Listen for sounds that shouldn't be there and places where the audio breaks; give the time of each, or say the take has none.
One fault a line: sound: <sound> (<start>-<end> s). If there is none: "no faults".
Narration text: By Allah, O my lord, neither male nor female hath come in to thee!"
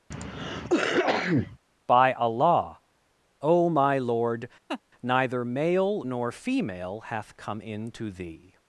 sound: cough (0.1-1.6 s)
sound: laugh (4.7-4.8 s)